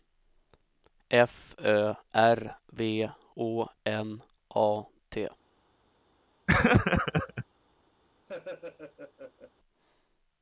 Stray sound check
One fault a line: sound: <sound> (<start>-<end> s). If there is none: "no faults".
sound: laugh (6.5-7.5 s)
sound: laugh (8.3-9.5 s)